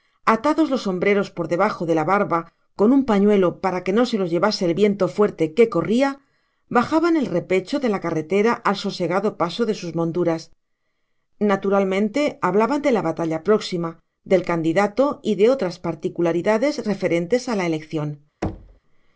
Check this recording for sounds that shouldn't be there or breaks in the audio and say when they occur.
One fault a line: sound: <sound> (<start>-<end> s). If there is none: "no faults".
sound: thud (18.4-18.8 s)